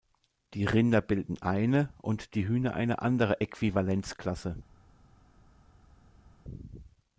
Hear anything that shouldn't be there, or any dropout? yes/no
no